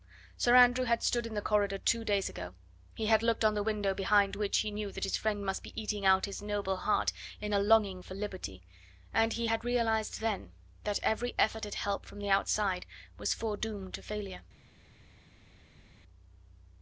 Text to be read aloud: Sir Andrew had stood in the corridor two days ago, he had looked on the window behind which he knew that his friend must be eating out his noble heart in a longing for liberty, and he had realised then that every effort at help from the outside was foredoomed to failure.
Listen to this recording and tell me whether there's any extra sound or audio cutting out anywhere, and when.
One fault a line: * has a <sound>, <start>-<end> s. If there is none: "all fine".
all fine